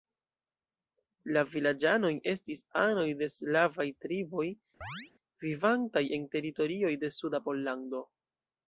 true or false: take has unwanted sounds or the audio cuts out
true